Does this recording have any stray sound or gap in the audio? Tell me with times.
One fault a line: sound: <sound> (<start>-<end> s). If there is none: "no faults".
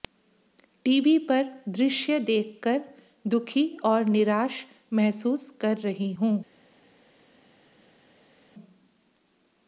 no faults